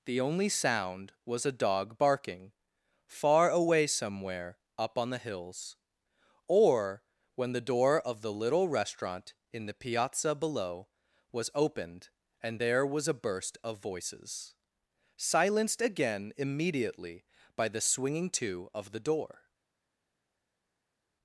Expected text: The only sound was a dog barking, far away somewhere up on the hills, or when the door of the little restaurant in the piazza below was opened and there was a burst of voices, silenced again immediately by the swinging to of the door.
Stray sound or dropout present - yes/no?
no